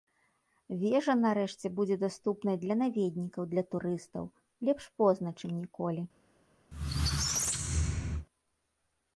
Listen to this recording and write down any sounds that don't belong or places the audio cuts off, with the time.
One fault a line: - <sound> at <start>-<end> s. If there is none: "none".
- squeak at 6.7-8.3 s